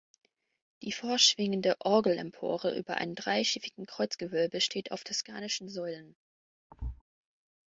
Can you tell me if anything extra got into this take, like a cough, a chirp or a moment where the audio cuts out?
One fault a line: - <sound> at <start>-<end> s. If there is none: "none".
- thud at 6.7-7.0 s